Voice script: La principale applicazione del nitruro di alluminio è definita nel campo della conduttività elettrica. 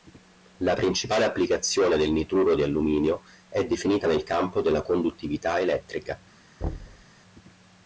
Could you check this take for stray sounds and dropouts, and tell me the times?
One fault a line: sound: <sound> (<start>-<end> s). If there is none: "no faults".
sound: thud (6.6-7.1 s)